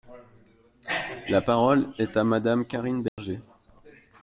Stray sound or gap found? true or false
true